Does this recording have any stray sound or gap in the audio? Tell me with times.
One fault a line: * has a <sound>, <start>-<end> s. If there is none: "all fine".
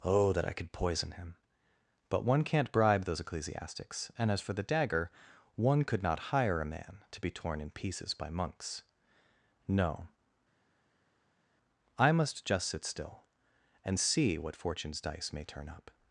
all fine